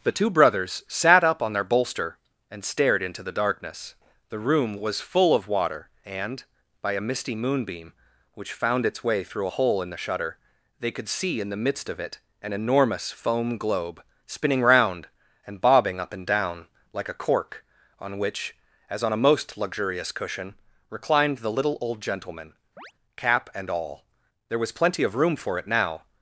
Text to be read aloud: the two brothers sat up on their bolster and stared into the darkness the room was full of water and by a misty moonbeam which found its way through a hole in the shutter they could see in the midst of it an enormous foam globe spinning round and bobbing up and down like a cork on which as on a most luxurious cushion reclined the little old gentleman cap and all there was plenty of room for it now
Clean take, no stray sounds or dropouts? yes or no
no